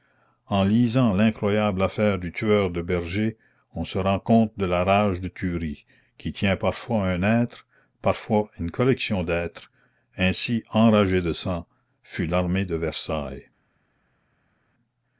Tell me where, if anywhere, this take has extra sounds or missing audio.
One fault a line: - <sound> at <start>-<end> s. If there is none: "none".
none